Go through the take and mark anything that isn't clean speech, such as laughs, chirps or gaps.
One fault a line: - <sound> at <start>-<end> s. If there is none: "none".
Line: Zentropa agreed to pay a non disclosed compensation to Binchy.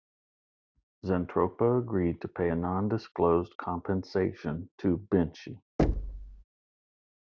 - thud at 5.8-6.4 s